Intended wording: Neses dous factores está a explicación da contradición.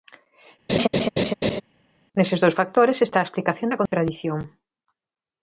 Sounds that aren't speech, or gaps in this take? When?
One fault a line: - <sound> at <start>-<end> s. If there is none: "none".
- laugh at 0.7-1.6 s
- dropout at 3.9-3.9 s